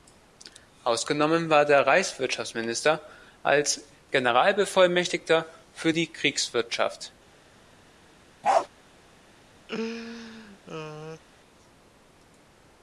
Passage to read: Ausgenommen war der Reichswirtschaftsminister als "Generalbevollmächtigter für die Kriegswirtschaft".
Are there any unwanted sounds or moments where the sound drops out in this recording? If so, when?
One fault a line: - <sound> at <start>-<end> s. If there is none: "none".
- bark at 8.4-8.7 s
- laugh at 9.7-11.2 s